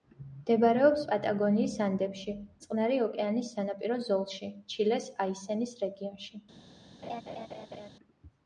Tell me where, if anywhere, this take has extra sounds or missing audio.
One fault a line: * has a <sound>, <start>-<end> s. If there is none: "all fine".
* has a laugh, 7.0-7.9 s